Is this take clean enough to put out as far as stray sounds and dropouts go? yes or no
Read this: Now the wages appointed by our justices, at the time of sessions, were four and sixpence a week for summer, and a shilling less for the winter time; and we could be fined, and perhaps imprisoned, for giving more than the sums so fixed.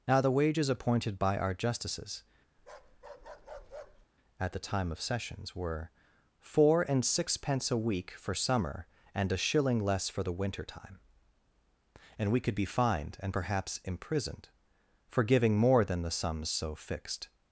no